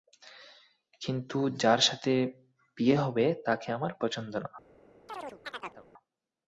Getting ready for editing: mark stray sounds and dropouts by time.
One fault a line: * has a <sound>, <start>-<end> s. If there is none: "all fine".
* has a chirp, 5.1-5.9 s